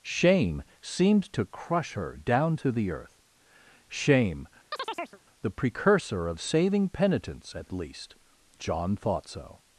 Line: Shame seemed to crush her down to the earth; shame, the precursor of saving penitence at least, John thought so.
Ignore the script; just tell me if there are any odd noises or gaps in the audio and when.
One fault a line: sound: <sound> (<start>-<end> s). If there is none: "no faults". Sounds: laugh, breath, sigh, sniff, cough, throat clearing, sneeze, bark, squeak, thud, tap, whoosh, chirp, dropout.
sound: chirp (4.7-5.2 s)